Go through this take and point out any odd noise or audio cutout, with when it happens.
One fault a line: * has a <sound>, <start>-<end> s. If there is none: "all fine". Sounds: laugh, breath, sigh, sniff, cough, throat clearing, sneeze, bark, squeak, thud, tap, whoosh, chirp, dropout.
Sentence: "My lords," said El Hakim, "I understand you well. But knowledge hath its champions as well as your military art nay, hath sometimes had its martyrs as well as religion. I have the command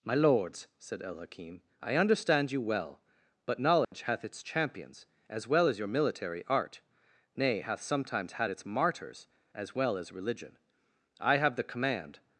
* has a dropout, 3.8-3.9 s